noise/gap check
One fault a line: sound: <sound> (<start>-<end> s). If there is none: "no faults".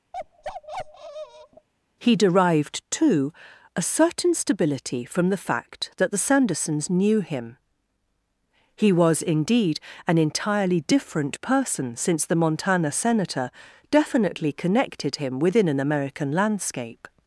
sound: bark (0.1-1.7 s)